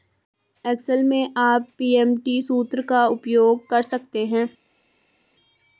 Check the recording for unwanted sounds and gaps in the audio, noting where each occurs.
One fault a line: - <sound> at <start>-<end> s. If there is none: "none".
none